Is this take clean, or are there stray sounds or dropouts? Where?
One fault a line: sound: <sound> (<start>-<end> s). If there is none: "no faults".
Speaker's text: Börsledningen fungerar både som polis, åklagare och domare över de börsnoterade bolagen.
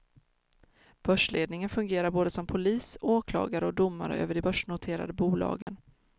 sound: dropout (5.6-5.7 s)